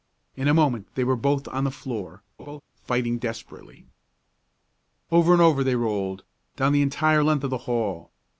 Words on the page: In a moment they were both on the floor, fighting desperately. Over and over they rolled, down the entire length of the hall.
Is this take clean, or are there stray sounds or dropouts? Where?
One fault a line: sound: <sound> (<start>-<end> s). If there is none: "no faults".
sound: laugh (2.4-2.6 s)